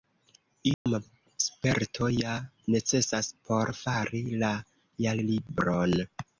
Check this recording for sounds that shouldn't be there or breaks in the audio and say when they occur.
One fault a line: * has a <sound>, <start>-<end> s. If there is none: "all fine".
* has a dropout, 0.7-0.9 s